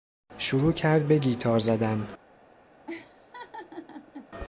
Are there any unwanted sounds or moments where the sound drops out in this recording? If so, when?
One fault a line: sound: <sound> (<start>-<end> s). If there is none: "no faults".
sound: laugh (2.9-4.3 s)